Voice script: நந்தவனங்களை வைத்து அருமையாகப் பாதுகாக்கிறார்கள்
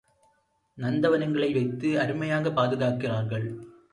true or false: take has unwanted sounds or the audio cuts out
false